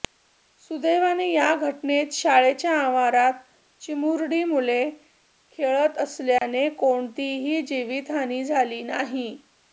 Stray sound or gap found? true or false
true